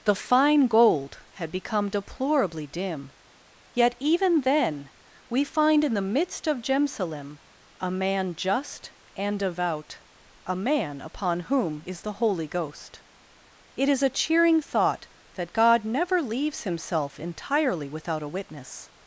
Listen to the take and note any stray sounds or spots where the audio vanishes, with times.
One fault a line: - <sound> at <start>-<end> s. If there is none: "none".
none